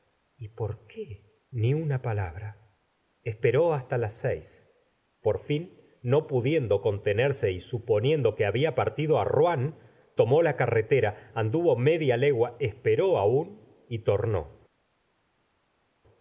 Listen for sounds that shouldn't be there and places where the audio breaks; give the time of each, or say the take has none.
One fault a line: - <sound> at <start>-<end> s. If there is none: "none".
none